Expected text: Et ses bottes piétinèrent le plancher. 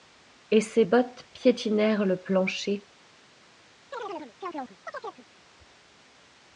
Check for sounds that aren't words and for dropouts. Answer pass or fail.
fail